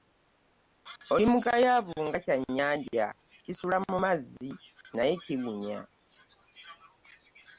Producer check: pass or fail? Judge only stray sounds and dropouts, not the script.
pass